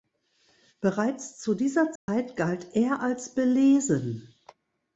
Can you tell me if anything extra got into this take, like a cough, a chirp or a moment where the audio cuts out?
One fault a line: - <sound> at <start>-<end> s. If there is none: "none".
- dropout at 2.0-2.1 s